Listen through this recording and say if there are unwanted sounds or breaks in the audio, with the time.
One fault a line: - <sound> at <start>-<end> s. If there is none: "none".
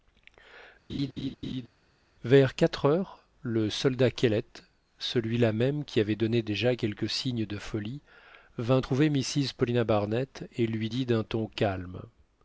- laugh at 0.9-1.7 s